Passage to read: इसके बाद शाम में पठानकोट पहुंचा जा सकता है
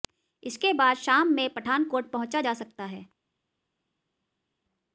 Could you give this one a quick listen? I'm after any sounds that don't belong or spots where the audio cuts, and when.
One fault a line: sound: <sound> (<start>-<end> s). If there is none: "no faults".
no faults